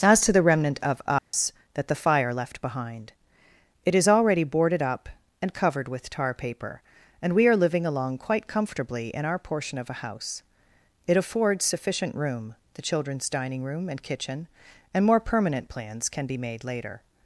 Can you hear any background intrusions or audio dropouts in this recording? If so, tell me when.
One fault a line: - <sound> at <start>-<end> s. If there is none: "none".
- dropout at 1.2-1.3 s